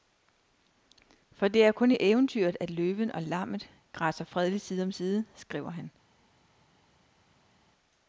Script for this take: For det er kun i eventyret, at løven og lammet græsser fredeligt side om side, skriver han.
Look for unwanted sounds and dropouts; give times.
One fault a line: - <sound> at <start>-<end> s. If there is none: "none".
none